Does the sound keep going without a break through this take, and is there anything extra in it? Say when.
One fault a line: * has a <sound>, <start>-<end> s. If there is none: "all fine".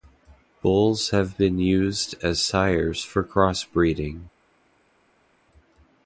all fine